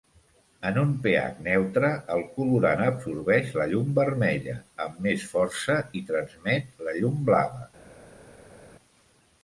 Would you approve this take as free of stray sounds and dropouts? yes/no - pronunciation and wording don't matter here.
yes